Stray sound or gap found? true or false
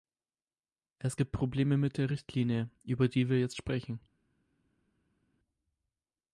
false